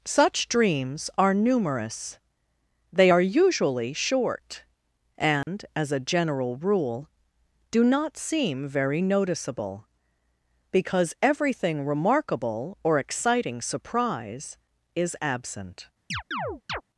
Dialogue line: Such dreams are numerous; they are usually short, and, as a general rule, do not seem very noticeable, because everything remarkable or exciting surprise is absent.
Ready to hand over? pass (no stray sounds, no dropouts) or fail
fail